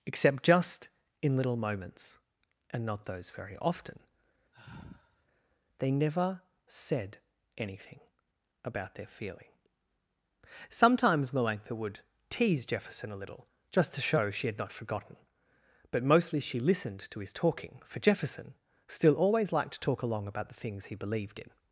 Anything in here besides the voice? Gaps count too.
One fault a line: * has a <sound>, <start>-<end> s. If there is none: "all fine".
* has a sigh, 4.5-5.3 s